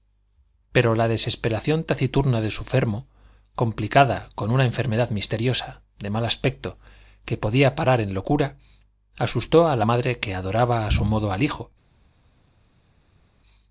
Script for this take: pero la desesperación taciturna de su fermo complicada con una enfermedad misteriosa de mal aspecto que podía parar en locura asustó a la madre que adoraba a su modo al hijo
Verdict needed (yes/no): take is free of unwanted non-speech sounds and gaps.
yes